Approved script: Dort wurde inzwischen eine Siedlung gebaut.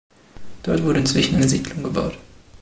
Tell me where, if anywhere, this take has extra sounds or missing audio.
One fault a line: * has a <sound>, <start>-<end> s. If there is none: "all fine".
all fine